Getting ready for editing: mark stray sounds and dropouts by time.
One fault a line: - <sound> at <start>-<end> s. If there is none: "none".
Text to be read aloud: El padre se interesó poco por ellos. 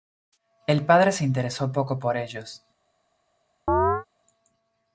- chirp at 3.7-4.1 s